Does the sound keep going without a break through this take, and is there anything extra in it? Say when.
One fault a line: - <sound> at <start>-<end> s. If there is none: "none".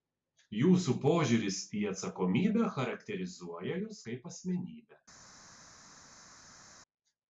none